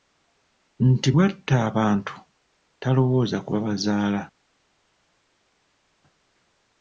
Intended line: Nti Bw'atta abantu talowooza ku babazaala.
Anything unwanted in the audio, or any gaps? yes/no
no